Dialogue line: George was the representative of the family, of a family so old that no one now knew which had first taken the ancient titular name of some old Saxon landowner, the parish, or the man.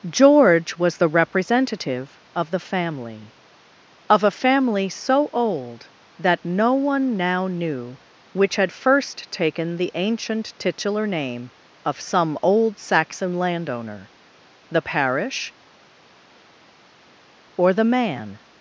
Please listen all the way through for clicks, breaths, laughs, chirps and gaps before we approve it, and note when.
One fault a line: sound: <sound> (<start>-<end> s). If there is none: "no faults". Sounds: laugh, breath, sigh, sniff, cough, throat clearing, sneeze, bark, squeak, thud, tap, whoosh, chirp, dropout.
no faults